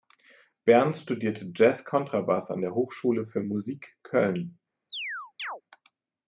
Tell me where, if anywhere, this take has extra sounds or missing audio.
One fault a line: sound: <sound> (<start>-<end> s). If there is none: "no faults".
sound: chirp (4.9-5.6 s)